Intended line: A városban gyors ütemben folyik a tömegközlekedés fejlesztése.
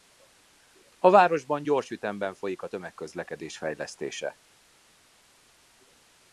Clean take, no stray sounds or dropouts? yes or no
yes